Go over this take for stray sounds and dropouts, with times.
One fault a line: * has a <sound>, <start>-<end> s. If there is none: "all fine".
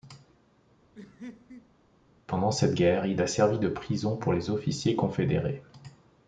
* has a laugh, 0.9-1.7 s